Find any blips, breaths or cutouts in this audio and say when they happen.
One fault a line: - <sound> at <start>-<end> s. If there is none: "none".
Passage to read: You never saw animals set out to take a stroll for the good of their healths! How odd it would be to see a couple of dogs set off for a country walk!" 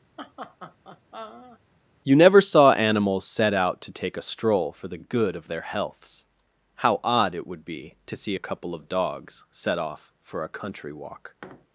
- laugh at 0.2-1.6 s